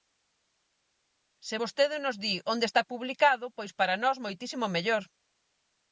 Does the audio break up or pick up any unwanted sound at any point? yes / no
no